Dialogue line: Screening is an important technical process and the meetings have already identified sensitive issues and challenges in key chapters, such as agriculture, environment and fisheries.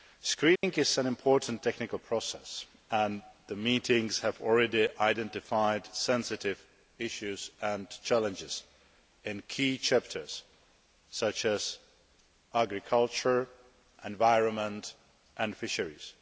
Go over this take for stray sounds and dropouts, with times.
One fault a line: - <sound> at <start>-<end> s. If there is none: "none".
- dropout at 0.6-0.6 s